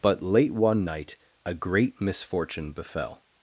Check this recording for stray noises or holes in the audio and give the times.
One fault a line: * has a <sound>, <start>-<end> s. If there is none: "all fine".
all fine